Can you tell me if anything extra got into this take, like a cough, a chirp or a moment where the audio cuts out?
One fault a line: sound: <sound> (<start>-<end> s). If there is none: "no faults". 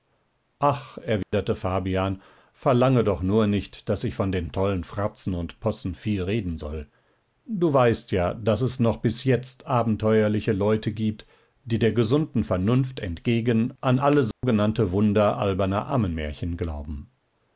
sound: dropout (1.2-1.3 s)
sound: dropout (14.3-14.4 s)